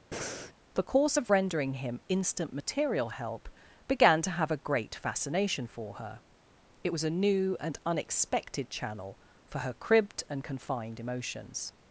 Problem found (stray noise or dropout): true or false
true